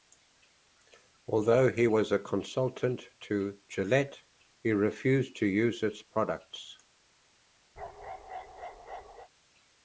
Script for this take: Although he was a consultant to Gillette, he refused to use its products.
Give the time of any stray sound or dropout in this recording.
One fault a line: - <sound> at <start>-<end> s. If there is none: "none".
- bark at 7.8-9.3 s